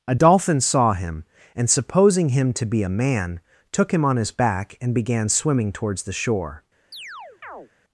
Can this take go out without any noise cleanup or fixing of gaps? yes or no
no